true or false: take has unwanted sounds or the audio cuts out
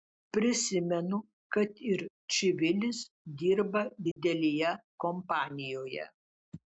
true